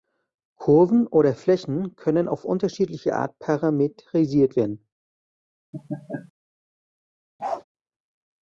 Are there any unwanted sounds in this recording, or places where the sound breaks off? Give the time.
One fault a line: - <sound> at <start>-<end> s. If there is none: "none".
- laugh at 5.7-6.3 s
- bark at 7.4-7.6 s